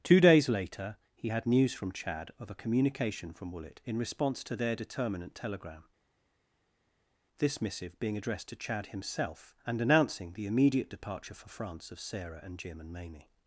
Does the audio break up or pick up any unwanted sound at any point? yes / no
no